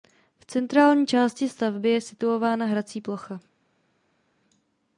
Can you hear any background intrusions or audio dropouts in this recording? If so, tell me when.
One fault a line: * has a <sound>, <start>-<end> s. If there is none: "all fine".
all fine